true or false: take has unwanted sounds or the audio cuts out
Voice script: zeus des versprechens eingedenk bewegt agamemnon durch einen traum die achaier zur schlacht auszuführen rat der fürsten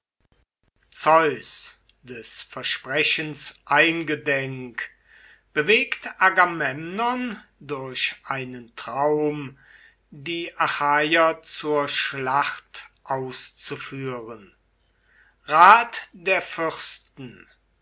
false